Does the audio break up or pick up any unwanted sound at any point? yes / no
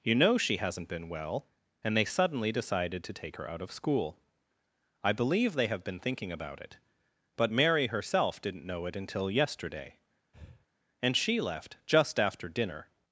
yes